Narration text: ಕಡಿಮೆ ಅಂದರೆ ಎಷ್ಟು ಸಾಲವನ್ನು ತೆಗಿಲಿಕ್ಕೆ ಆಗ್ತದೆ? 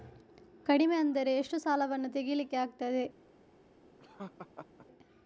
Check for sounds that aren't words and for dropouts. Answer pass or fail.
fail